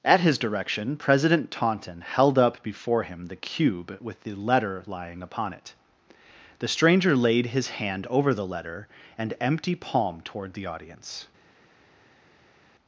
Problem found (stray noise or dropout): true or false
false